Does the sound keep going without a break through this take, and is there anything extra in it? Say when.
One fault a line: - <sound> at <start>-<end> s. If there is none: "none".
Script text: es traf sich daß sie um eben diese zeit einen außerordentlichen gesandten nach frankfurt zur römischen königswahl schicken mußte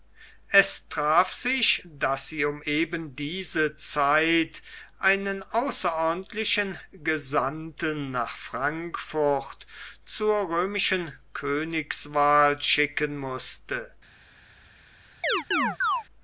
- chirp at 15.2-16.0 s